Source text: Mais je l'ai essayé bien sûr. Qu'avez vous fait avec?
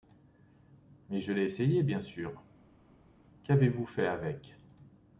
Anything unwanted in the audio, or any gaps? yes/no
no